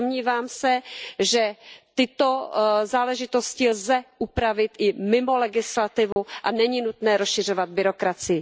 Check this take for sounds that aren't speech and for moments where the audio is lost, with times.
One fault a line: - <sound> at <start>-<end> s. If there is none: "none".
- dropout at 6.1-6.2 s